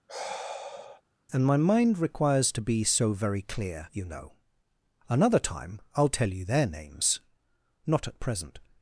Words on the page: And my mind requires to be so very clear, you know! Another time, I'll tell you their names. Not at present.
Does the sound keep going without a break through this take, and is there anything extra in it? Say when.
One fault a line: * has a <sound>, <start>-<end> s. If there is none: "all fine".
* has a sigh, 0.1-1.0 s